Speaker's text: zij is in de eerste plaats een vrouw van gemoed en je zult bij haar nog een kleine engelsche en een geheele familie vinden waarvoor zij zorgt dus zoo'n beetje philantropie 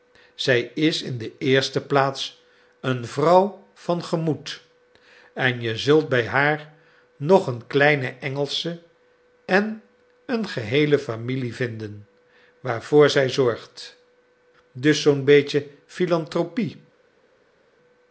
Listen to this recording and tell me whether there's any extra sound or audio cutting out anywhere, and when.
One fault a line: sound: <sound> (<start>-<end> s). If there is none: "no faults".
no faults